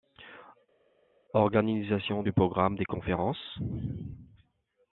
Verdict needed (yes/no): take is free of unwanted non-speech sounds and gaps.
yes